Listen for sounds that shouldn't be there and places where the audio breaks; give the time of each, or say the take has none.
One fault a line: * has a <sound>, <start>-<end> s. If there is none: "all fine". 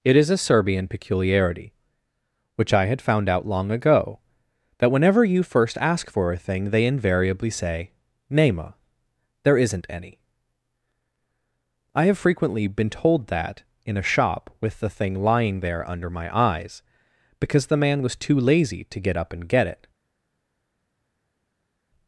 all fine